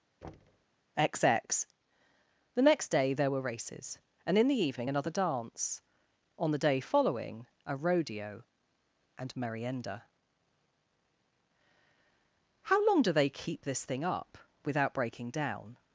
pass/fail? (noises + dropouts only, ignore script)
fail